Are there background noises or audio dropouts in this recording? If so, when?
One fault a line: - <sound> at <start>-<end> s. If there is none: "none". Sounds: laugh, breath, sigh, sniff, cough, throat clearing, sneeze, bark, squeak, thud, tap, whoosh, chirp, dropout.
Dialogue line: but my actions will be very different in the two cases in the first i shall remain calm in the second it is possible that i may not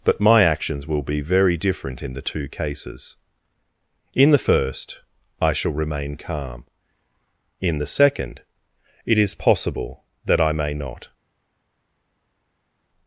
none